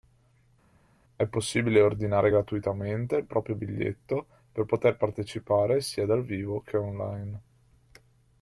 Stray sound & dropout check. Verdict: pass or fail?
pass